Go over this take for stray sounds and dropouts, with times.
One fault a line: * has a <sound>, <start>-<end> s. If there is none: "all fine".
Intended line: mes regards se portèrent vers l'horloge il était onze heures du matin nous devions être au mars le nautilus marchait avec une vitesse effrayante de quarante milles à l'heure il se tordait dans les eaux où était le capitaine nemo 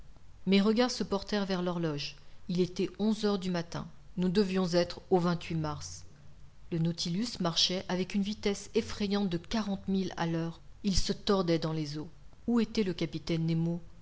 all fine